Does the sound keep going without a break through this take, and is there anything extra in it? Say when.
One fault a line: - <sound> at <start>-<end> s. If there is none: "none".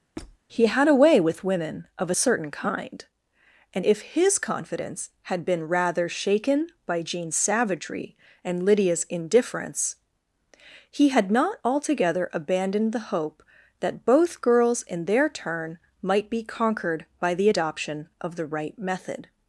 - squeak at 0.2-0.4 s